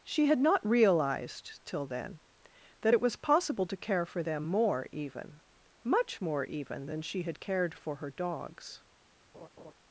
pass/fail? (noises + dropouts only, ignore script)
fail